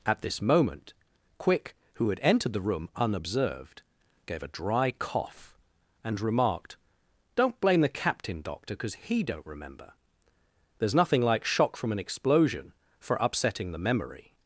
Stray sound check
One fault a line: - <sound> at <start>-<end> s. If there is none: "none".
none